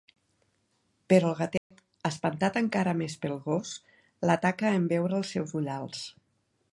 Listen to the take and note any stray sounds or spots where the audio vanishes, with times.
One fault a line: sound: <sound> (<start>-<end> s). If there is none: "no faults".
sound: dropout (1.6-1.7 s)